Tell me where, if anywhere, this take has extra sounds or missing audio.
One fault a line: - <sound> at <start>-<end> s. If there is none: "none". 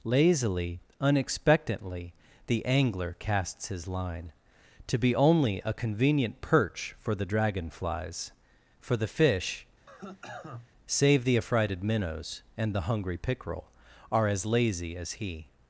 - cough at 9.9-10.7 s